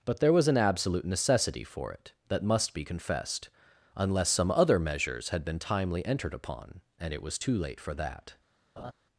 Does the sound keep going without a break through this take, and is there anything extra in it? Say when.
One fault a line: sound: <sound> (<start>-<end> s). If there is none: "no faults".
sound: laugh (8.8-8.9 s)